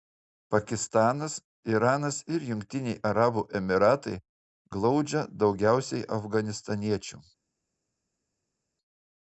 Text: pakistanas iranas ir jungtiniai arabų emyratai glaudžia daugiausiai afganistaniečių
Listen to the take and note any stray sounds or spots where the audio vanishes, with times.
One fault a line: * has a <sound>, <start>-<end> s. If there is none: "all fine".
all fine